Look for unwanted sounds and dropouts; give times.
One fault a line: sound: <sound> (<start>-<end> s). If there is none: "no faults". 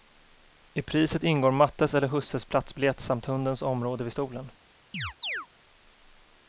sound: chirp (4.9-5.5 s)